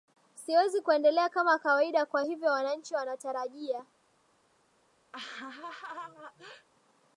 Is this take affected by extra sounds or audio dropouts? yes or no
yes